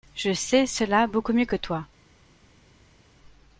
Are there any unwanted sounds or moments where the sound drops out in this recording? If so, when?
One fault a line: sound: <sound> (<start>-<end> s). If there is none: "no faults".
no faults